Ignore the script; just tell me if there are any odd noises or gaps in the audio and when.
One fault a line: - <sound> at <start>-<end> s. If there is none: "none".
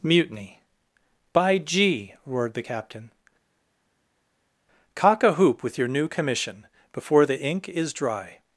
none